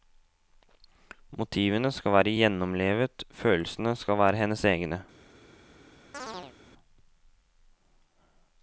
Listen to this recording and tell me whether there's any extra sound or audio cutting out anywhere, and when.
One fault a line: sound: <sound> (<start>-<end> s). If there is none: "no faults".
sound: chirp (6.1-6.6 s)